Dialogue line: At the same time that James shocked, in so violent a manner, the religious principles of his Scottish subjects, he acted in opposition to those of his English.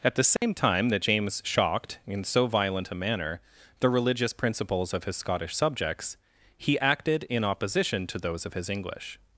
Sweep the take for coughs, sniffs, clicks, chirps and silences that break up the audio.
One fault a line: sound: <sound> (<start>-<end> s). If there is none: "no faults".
sound: dropout (0.4-0.4 s)